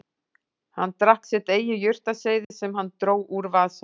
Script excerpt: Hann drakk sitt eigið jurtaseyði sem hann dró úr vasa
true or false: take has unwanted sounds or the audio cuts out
true